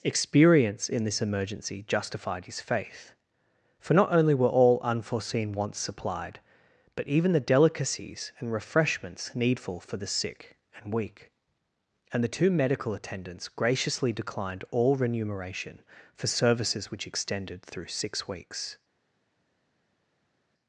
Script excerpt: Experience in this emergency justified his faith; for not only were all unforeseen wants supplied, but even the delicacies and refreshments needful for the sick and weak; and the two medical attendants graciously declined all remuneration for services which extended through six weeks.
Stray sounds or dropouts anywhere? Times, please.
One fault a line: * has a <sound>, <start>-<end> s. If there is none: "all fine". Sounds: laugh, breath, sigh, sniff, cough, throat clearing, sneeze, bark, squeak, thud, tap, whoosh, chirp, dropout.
all fine